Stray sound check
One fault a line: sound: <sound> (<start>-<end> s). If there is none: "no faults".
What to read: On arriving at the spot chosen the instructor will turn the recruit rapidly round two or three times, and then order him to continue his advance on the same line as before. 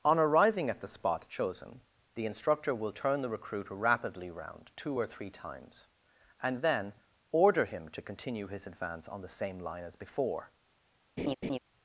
sound: laugh (11.2-11.6 s)